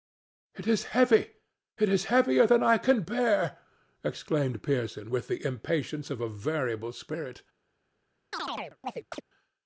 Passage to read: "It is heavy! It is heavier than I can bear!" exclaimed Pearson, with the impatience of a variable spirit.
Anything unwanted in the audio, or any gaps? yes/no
yes